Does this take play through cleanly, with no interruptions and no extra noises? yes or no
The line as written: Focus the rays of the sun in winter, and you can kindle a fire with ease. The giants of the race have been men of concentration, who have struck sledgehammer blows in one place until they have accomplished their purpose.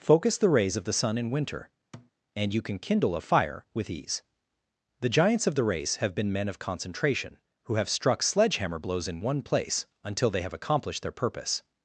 no